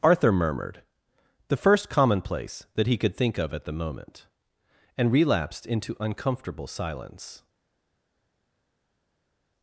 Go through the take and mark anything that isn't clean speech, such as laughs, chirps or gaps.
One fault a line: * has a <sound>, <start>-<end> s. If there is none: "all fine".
all fine